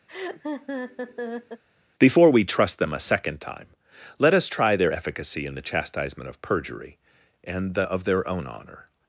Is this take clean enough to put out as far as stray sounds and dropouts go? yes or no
no